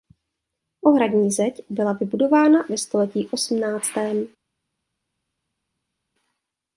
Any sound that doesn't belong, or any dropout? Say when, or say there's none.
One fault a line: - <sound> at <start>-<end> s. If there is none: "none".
none